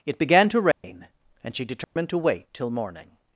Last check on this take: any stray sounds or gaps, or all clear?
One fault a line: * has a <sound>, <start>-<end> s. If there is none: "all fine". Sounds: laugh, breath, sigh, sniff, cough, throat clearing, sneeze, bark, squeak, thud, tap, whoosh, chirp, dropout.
* has a dropout, 0.7-0.8 s
* has a dropout, 1.8-2.0 s